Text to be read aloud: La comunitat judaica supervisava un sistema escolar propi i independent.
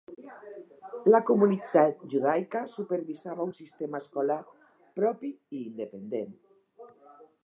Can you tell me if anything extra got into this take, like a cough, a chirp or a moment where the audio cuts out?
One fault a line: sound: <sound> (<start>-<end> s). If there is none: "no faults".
no faults